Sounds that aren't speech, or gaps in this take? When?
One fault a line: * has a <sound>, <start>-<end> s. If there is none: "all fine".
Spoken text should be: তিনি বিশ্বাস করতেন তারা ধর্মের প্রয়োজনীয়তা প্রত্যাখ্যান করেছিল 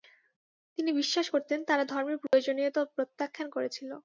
* has a dropout, 2.3-2.3 s